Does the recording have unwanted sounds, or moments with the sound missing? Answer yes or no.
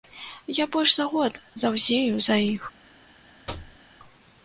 yes